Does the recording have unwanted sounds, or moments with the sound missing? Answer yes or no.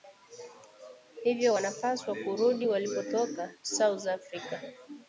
no